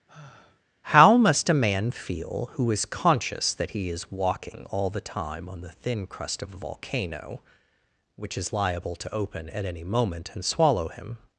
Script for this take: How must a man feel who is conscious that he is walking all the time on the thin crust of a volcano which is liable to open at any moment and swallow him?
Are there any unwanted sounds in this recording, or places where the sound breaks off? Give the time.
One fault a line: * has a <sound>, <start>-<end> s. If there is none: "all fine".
* has a sigh, 0.1-0.6 s